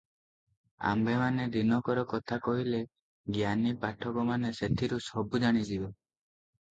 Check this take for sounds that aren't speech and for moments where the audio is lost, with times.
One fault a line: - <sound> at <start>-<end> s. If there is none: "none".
none